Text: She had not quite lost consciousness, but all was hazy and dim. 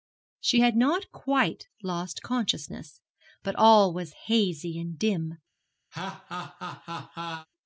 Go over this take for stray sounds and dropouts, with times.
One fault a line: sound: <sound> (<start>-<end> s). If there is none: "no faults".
sound: laugh (5.9-7.5 s)